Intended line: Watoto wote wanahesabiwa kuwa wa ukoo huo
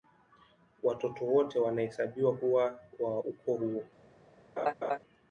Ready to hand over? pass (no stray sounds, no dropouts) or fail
fail